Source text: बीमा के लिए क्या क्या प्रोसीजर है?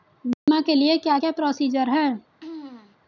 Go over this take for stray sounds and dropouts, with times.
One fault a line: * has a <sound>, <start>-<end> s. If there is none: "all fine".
* has a dropout, 0.3-0.5 s
* has a throat clearing, 2.4-3.0 s